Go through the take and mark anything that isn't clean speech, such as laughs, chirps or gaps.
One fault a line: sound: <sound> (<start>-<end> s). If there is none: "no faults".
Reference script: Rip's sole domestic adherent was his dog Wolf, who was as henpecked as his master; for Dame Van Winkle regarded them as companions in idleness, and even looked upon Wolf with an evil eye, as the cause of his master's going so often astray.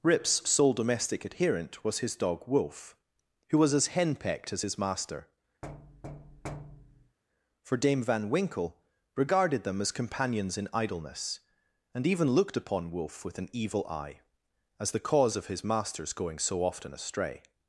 sound: thud (5.6-7.2 s)